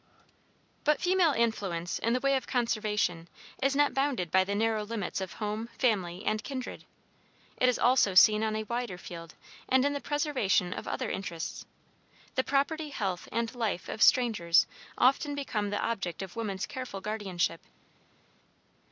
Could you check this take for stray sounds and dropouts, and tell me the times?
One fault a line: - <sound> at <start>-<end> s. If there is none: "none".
none